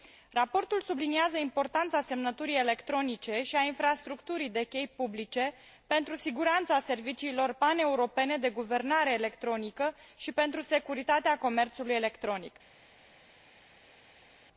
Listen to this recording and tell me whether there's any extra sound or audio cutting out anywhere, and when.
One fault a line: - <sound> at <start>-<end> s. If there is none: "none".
none